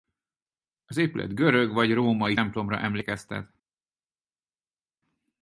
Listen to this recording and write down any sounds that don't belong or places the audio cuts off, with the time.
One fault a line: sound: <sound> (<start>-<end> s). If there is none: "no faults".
no faults